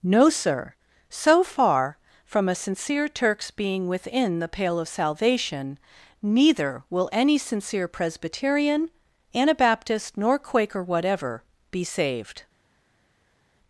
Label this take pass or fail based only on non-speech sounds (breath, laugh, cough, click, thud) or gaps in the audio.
pass